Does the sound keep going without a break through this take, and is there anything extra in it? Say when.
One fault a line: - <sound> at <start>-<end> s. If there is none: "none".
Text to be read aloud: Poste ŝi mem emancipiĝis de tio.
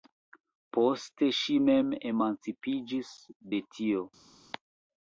none